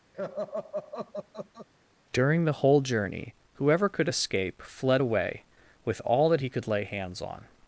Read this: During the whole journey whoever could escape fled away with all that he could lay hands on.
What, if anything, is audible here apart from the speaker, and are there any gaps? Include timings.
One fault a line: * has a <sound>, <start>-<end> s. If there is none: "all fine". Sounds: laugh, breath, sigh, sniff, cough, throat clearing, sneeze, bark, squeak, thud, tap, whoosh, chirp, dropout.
* has a laugh, 0.1-1.7 s